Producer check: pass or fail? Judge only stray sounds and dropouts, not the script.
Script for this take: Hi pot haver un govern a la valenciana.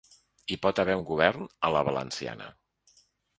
pass